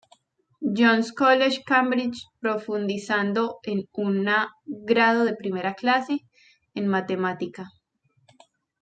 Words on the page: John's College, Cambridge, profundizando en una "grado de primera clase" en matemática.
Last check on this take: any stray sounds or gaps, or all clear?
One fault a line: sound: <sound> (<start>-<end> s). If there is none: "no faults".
no faults